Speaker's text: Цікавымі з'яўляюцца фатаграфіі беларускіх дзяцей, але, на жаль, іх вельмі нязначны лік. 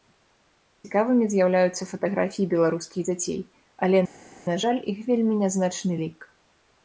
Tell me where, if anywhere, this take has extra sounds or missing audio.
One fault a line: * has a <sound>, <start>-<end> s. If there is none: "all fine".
all fine